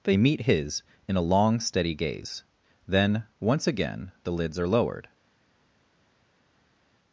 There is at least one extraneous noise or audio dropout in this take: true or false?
false